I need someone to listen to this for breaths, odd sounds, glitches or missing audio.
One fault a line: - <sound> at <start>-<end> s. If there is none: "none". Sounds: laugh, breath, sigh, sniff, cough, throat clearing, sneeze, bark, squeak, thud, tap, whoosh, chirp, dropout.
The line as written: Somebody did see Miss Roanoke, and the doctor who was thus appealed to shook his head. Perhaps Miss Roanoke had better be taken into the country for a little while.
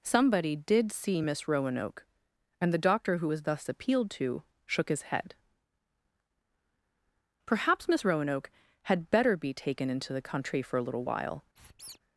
- squeak at 11.6-12.0 s